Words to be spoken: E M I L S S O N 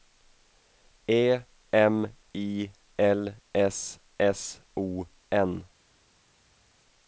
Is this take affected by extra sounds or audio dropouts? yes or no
no